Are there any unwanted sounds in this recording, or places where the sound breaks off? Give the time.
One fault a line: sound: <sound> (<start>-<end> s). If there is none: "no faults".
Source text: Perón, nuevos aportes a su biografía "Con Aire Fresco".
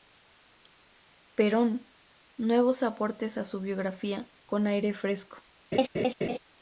sound: laugh (5.7-6.4 s)